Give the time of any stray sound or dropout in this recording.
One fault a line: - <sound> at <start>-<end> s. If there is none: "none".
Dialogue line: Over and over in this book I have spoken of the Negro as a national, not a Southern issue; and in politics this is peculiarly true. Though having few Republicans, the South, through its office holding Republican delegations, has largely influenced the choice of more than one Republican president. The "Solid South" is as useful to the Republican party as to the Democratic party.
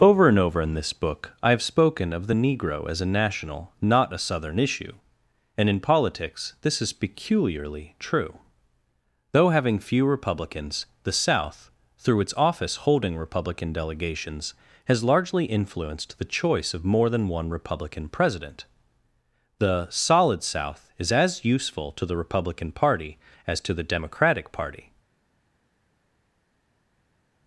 none